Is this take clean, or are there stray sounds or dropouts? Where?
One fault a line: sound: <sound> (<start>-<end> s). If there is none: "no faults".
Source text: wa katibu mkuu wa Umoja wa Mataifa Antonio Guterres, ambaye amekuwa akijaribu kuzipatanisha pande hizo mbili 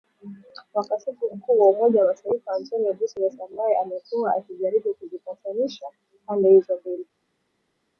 no faults